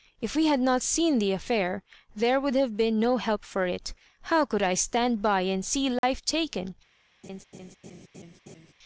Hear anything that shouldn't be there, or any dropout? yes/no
yes